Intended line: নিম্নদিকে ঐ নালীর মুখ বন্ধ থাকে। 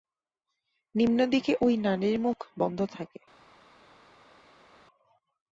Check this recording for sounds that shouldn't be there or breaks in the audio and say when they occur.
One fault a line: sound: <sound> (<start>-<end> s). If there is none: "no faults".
no faults